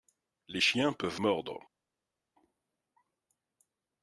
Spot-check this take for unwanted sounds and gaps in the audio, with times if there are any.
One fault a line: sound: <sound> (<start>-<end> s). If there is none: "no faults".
no faults